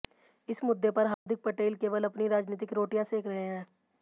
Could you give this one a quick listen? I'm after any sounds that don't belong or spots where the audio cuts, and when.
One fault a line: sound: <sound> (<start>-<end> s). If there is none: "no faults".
sound: dropout (1.1-1.3 s)